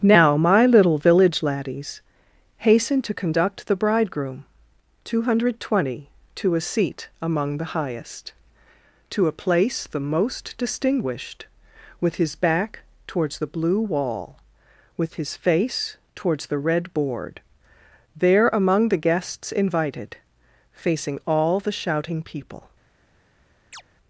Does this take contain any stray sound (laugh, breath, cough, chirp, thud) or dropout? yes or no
yes